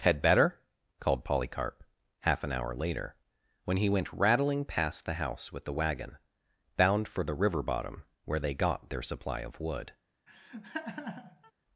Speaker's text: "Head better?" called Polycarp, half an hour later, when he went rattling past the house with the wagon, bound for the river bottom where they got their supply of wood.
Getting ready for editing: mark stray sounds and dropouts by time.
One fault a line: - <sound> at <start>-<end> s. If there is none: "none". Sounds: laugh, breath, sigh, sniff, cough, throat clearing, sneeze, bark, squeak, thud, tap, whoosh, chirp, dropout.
- laugh at 10.3-11.5 s